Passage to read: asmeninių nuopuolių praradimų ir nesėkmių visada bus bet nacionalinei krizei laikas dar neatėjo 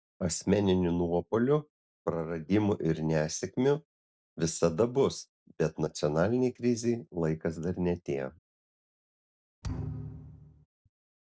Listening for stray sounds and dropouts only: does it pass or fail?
fail